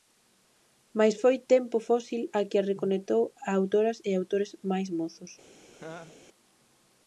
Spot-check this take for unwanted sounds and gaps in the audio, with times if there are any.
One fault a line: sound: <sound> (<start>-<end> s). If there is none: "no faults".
sound: laugh (5.7-6.2 s)